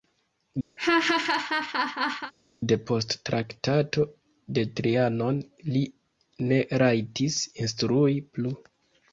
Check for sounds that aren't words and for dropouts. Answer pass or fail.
fail